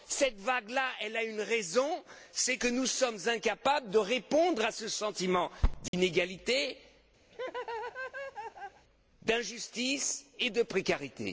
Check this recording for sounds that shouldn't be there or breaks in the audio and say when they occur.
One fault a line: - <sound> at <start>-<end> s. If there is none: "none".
- dropout at 5.9-5.9 s
- laugh at 7.3-8.8 s